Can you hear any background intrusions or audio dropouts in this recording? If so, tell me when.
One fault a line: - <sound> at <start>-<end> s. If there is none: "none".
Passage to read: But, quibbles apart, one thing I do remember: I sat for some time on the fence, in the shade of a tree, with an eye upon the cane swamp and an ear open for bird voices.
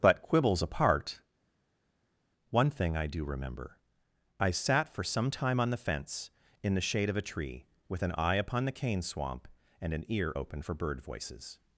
none